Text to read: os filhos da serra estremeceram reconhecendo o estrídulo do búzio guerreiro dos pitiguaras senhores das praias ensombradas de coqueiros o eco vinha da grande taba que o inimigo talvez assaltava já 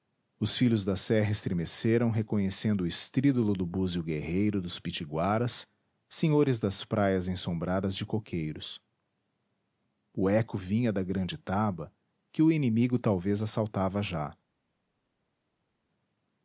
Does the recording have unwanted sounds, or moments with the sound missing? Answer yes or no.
no